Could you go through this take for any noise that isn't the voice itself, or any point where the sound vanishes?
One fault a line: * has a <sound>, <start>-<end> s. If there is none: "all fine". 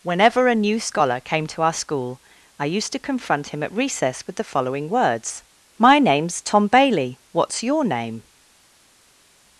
all fine